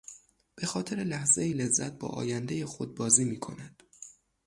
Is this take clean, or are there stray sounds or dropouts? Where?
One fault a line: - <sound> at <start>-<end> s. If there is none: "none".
none